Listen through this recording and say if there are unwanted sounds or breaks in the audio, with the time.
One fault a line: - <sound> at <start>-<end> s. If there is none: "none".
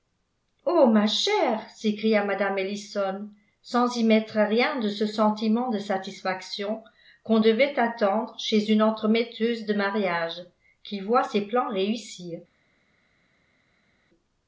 none